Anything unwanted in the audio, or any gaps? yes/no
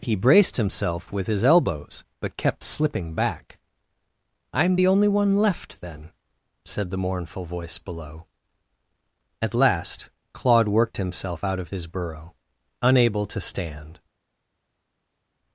no